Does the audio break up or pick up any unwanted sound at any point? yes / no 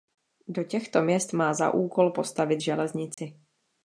yes